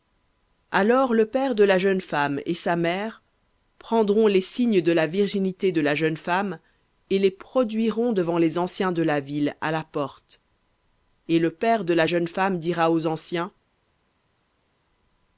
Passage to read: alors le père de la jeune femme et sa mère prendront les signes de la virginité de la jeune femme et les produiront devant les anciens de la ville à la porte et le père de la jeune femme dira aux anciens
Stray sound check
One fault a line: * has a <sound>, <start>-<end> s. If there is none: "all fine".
all fine